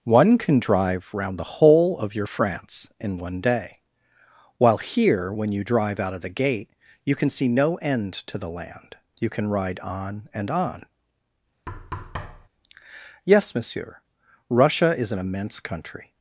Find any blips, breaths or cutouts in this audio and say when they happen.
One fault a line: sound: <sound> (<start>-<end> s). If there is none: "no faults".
sound: thud (11.7-12.5 s)